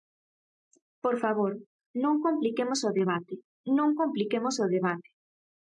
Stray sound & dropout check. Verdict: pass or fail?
pass